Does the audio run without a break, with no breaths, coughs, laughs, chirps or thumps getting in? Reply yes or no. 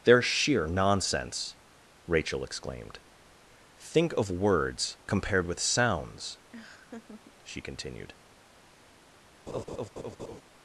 no